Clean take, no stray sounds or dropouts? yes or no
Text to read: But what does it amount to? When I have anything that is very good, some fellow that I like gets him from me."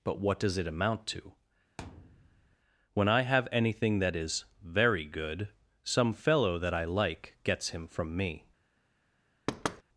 no